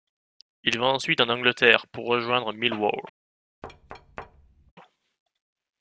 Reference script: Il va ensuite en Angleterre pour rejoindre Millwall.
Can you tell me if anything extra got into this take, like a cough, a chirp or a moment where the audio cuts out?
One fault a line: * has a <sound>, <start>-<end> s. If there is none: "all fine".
* has a thud, 3.6-4.7 s